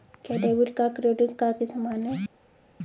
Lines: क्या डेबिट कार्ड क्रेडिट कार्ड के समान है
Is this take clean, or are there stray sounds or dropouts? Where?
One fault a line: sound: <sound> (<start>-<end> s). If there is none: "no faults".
no faults